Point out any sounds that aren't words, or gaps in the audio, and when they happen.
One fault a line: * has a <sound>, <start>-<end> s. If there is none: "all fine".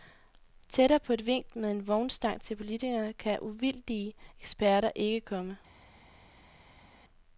all fine